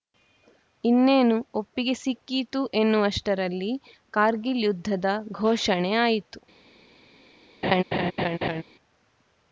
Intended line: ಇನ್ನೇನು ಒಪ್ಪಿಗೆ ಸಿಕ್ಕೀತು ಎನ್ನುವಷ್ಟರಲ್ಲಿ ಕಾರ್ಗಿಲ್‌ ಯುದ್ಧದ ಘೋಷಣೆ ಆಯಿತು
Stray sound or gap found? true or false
true